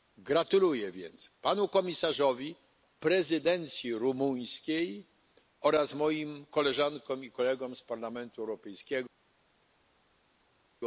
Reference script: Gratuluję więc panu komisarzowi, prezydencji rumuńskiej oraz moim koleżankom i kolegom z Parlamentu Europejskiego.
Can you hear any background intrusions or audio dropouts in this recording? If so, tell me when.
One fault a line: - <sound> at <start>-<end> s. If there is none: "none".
none